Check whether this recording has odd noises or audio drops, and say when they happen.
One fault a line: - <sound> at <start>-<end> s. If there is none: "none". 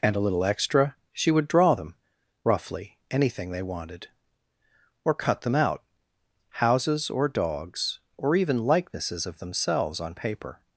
none